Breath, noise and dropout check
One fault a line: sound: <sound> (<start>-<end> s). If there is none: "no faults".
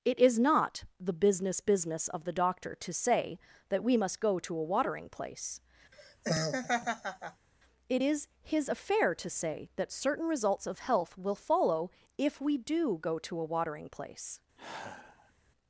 sound: laugh (5.9-7.5 s)
sound: sigh (14.6-15.3 s)